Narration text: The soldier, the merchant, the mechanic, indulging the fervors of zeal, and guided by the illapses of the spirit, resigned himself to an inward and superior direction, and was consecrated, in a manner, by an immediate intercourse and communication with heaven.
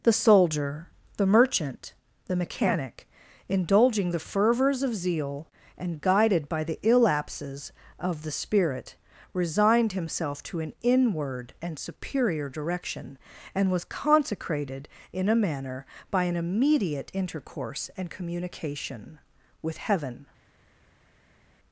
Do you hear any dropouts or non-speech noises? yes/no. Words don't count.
no